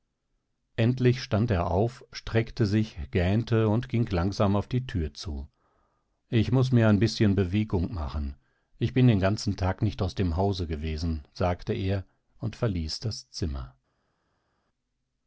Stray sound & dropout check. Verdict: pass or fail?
pass